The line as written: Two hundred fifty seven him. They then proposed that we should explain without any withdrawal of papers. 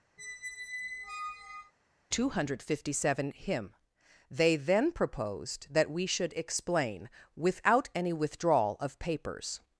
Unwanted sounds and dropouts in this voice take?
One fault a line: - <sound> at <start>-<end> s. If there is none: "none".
- squeak at 0.2-1.7 s